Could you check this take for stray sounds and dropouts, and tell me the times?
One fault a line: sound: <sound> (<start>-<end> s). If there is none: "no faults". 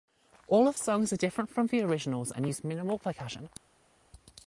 no faults